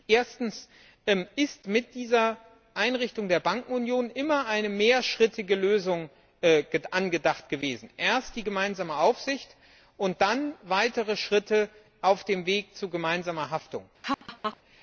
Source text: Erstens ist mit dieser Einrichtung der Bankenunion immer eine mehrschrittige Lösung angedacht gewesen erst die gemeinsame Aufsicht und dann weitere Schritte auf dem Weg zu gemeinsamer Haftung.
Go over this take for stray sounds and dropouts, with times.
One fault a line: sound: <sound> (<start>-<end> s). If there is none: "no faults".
sound: laugh (14.0-14.6 s)